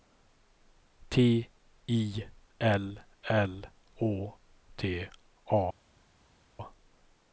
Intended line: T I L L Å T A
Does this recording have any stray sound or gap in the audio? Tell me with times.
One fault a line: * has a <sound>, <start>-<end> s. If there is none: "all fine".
all fine